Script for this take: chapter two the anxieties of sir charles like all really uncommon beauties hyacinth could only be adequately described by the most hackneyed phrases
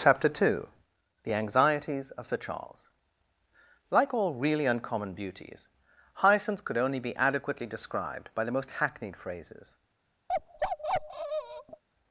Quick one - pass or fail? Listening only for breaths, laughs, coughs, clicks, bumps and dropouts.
fail